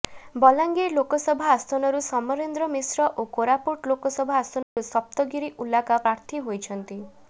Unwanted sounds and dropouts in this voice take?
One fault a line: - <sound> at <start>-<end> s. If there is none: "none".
- dropout at 4.6-4.8 s